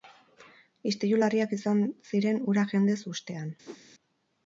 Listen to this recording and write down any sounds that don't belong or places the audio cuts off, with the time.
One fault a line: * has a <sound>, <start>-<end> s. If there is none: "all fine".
* has a whoosh, 3.7-3.8 s